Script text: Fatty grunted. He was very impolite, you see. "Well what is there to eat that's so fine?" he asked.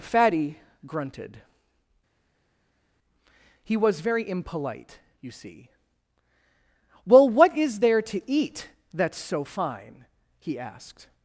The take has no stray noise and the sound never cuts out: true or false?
true